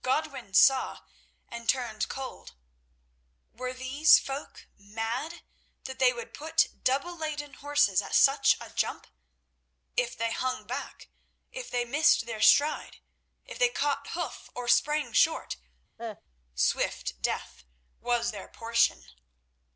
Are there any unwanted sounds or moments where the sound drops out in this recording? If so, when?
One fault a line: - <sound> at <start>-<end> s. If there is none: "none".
- cough at 16.0-16.2 s